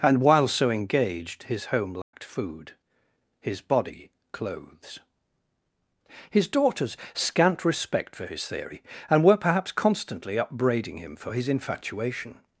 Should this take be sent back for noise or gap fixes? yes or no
yes